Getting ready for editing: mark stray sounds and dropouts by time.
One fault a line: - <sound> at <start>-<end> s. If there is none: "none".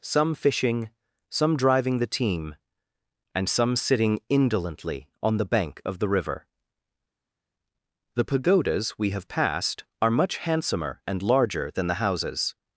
none